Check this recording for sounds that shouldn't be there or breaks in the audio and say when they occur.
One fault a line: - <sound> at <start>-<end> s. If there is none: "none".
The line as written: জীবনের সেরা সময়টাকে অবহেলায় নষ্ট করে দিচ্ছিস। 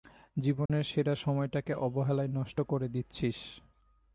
- dropout at 0.7-0.7 s